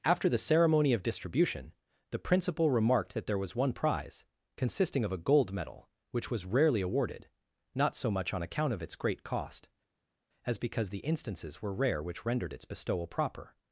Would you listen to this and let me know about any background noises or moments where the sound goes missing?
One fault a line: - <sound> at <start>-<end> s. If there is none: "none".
none